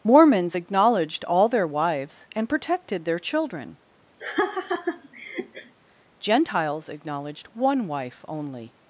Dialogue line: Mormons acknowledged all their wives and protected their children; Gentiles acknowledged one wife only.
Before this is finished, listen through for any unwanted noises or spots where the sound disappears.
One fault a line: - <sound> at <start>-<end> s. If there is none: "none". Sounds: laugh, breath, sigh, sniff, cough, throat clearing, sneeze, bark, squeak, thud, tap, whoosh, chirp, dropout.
- laugh at 4.2-5.7 s